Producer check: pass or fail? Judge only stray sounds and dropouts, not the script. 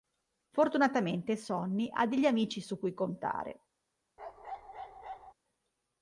fail